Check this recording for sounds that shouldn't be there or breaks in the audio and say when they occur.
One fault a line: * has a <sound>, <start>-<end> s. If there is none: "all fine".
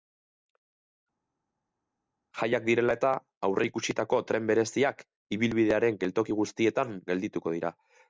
all fine